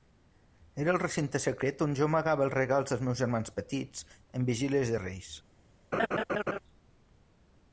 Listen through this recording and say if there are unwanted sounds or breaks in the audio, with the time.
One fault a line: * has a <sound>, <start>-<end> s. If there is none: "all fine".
* has a laugh, 5.9-6.6 s